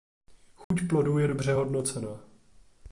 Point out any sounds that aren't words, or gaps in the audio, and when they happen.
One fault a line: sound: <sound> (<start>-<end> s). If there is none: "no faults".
sound: dropout (0.6-0.7 s)